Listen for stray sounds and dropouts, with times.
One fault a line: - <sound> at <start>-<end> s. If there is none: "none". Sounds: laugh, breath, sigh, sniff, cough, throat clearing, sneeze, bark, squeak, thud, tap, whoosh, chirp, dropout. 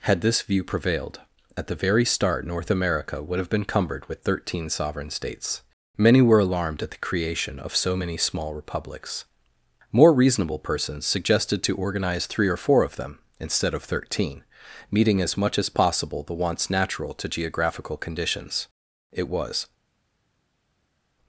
none